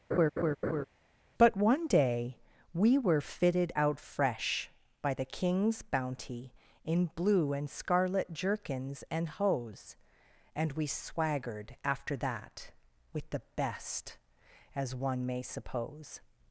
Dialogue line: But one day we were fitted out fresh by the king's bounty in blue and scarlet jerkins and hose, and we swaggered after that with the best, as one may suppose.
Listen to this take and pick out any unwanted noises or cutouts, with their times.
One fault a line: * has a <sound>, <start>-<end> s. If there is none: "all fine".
* has a laugh, 0.1-0.9 s